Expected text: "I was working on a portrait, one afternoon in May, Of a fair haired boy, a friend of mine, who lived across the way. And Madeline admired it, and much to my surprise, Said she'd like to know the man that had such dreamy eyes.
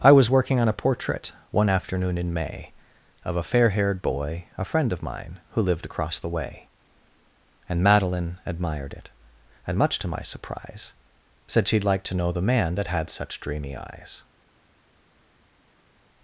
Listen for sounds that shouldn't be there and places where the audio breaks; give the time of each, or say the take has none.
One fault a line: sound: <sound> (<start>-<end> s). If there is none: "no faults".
no faults